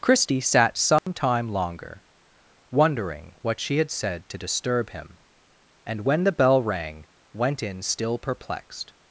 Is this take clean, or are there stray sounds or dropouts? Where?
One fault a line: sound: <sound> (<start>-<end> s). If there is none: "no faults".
sound: dropout (1.0-1.1 s)